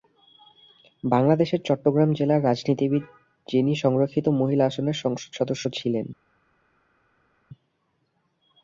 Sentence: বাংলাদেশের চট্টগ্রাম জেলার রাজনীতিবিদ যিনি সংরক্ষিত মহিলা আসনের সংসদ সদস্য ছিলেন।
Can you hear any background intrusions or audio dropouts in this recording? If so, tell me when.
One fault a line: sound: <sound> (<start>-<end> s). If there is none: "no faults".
no faults